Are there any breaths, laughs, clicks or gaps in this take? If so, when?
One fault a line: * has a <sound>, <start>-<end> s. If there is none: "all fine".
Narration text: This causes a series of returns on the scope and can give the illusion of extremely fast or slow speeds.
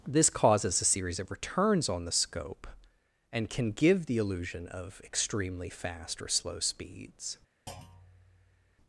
* has a thud, 7.7-8.8 s